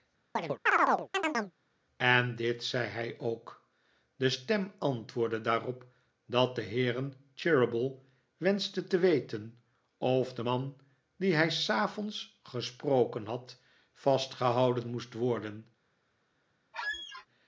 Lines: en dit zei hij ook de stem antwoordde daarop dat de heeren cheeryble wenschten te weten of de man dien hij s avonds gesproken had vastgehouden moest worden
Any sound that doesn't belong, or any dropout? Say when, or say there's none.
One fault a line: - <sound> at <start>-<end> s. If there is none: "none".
- chirp at 0.4-1.5 s
- squeak at 16.7-17.3 s